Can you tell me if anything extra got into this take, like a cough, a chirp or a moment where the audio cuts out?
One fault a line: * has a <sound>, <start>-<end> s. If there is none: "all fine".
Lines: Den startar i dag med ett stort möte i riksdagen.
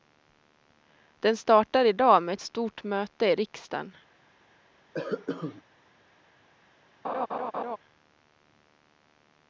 * has a cough, 4.9-5.6 s
* has a laugh, 7.0-7.8 s